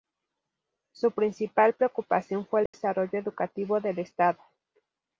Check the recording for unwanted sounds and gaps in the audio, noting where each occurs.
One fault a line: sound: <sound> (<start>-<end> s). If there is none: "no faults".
sound: dropout (2.7-2.7 s)